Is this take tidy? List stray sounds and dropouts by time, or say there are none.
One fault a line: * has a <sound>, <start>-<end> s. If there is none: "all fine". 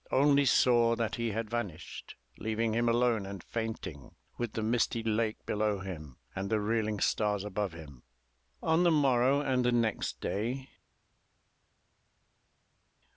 all fine